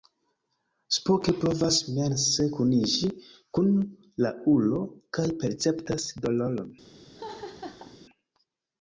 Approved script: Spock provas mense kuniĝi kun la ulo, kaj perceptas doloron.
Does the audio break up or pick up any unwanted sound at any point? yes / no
yes